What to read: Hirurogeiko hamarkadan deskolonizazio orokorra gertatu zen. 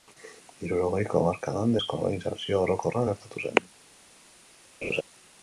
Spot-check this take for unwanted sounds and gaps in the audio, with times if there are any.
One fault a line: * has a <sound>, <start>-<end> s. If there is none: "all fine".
* has a laugh, 4.8-5.0 s